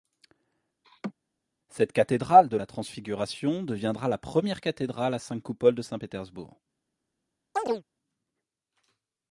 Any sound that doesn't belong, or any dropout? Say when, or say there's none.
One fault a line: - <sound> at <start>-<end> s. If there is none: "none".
- laugh at 0.8-1.1 s
- chirp at 7.6-7.8 s